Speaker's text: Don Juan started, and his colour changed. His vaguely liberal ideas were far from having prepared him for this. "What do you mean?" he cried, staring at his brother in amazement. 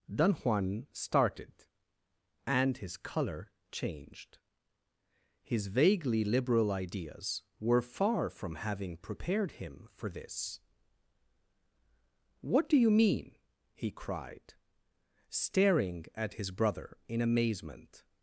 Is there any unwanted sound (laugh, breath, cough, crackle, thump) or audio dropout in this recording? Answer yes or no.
no